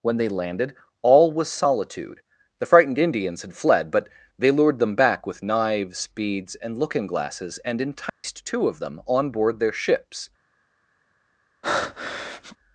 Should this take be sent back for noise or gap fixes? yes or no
yes